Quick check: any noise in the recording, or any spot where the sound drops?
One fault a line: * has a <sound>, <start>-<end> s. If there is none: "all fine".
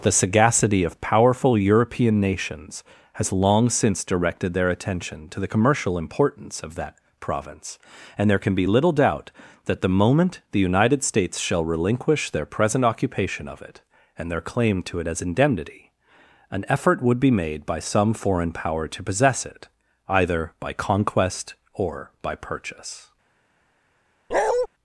* has a bark, 24.3-24.7 s